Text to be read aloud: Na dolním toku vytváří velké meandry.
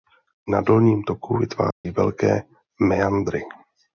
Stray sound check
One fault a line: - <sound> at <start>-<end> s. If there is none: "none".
- dropout at 1.7-1.8 s